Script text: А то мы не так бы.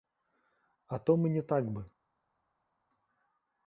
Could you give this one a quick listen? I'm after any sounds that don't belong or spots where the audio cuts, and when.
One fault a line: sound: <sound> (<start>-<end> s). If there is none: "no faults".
no faults